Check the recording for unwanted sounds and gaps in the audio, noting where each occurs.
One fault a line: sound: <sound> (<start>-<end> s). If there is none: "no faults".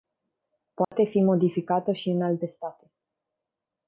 sound: dropout (0.8-0.9 s)